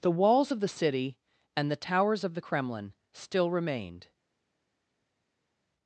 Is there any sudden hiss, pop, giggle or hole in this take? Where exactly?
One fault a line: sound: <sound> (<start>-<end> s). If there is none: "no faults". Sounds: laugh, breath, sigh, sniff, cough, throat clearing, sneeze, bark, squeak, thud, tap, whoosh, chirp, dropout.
no faults